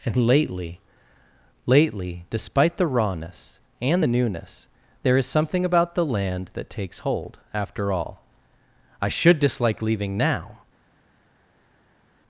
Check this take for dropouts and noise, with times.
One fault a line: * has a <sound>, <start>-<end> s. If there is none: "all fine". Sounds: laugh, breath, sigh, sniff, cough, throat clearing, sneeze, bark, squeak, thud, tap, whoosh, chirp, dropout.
all fine